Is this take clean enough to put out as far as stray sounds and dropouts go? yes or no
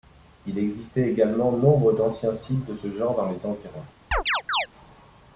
no